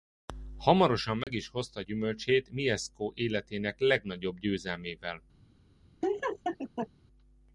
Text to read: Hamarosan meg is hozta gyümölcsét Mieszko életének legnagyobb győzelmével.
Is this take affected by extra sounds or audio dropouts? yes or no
yes